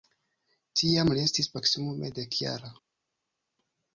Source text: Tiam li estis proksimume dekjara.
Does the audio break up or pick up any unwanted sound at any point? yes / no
no